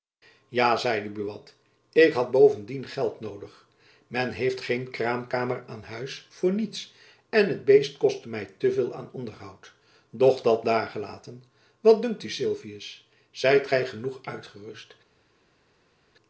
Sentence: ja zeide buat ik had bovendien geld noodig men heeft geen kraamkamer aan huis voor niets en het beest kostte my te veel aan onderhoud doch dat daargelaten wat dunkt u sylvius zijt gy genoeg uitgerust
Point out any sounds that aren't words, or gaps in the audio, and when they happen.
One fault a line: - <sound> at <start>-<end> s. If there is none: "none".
none